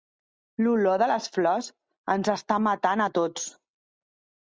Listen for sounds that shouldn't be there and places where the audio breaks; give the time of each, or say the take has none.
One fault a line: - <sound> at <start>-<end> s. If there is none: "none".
none